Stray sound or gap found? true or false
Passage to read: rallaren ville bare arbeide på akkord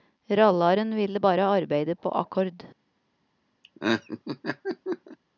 true